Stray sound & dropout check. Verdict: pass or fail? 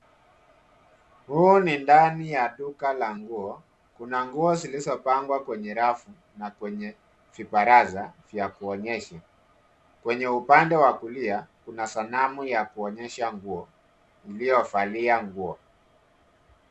pass